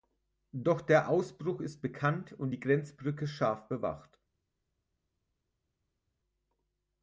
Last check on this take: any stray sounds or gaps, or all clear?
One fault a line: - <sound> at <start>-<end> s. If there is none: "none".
none